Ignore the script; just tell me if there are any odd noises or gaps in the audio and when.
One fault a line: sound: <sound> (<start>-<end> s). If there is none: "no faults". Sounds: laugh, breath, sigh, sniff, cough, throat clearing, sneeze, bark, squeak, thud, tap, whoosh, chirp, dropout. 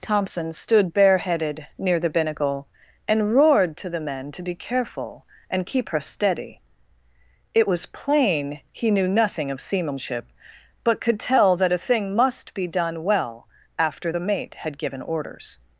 no faults